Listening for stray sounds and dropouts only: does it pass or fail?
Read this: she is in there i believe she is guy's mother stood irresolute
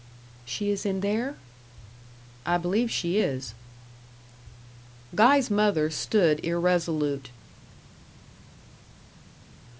pass